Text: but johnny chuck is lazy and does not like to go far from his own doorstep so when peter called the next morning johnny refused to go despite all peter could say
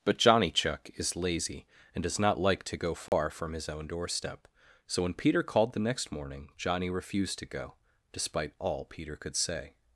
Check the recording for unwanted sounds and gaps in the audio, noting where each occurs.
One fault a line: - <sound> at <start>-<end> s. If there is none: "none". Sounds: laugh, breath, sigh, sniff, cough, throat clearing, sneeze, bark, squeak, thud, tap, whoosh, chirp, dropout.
- dropout at 3.1-3.1 s